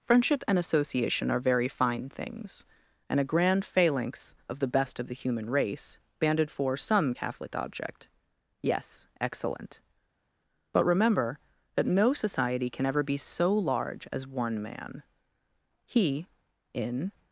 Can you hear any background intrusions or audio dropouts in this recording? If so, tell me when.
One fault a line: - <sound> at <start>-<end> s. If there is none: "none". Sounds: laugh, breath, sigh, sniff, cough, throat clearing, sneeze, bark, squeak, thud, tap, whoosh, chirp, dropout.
none